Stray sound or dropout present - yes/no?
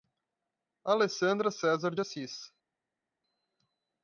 no